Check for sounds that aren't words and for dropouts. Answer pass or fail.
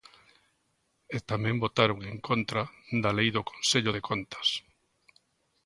pass